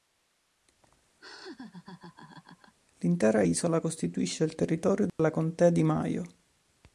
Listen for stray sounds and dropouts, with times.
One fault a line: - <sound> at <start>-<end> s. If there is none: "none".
- laugh at 1.2-2.7 s
- dropout at 5.1-5.2 s